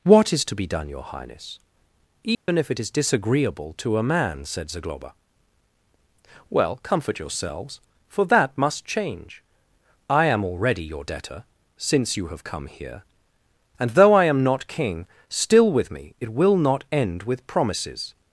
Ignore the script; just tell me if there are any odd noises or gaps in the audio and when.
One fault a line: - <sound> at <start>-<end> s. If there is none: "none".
- dropout at 2.3-2.5 s